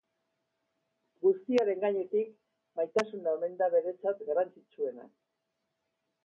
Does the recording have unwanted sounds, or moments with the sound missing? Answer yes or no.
no